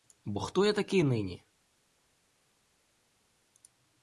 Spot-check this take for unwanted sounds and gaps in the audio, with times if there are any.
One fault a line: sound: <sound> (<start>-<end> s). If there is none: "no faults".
no faults